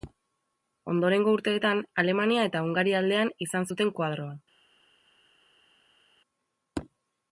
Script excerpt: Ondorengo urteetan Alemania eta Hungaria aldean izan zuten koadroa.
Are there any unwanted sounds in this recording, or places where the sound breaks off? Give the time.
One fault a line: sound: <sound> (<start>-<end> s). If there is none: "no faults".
no faults